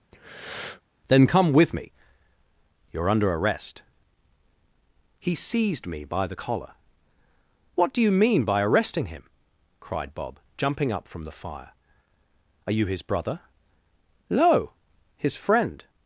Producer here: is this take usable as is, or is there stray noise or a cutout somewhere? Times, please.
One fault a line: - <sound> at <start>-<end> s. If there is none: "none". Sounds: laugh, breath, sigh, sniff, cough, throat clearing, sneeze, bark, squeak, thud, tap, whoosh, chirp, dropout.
- breath at 0.1-0.8 s